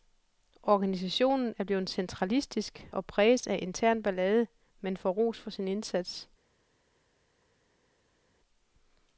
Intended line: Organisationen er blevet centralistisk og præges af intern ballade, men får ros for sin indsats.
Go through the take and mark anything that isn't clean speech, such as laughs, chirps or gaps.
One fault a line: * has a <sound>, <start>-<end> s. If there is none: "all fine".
all fine